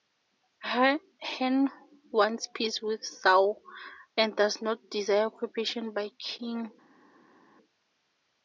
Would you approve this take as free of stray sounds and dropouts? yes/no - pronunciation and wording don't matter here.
yes